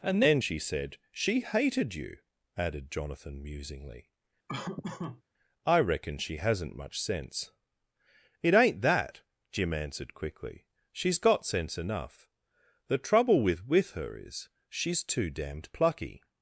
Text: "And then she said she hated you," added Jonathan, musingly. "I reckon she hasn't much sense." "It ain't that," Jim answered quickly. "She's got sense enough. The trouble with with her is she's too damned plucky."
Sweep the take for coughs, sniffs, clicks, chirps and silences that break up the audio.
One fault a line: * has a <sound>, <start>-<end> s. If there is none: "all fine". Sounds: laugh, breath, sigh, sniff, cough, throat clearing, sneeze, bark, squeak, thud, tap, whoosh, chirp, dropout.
* has a laugh, 4.5-5.2 s